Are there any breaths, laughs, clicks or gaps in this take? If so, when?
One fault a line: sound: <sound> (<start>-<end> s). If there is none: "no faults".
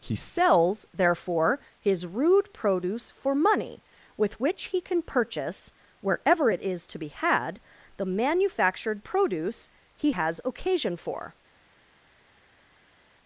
no faults